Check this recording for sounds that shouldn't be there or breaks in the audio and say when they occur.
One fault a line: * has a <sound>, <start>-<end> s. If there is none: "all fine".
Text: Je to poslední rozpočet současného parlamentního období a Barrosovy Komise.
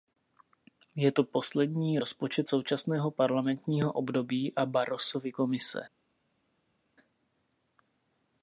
all fine